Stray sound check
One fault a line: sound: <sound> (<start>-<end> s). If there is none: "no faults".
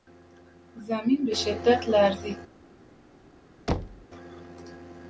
sound: thud (3.7-4.1 s)